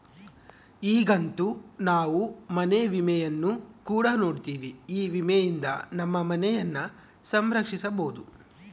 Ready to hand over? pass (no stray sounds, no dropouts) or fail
pass